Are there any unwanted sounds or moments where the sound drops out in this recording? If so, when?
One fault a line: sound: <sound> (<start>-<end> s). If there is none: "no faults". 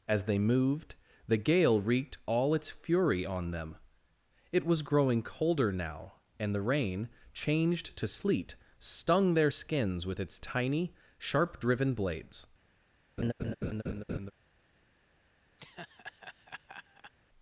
sound: laugh (13.2-14.3 s)
sound: laugh (15.6-17.1 s)